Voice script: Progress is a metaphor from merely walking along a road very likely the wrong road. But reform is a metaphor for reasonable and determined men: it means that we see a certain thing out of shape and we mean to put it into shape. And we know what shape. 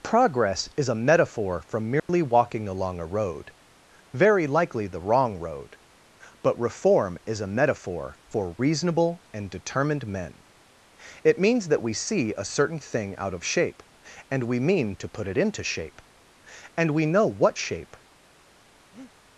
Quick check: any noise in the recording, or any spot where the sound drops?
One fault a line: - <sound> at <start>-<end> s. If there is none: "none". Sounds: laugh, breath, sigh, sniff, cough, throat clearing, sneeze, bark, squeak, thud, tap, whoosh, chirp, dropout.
- dropout at 2.0-2.1 s
- breath at 18.9-19.1 s